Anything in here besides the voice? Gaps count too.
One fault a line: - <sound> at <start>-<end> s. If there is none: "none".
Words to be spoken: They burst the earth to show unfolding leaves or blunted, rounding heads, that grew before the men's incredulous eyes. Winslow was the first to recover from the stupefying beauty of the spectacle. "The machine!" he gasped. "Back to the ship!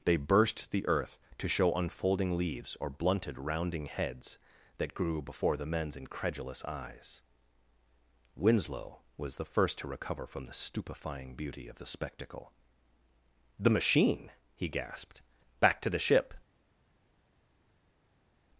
none